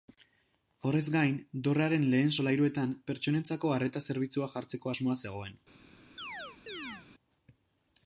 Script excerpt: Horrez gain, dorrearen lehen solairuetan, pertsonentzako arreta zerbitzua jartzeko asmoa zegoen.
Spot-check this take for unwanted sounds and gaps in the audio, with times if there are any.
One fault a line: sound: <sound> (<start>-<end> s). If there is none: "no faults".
sound: chirp (6.2-7.1 s)